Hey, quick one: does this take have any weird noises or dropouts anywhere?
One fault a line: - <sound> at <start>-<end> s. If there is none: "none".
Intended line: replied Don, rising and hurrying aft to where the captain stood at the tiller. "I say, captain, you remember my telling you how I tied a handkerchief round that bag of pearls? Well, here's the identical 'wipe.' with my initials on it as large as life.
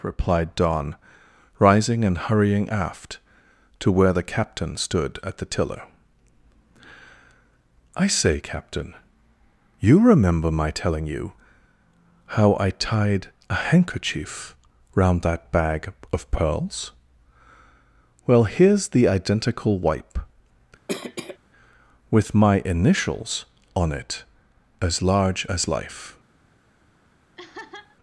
- cough at 20.9-21.4 s
- laugh at 27.4-28.0 s